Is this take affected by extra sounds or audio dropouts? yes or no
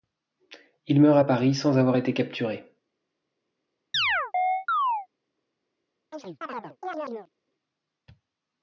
yes